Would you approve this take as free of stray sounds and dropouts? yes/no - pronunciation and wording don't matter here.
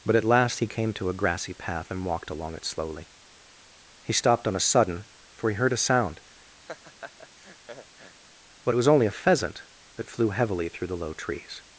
no